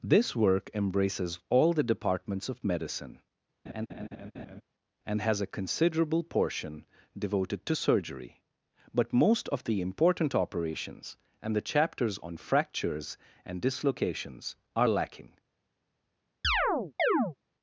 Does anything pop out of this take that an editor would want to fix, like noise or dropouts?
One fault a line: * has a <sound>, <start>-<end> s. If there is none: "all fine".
* has a laugh, 3.7-4.6 s
* has a chirp, 16.4-17.4 s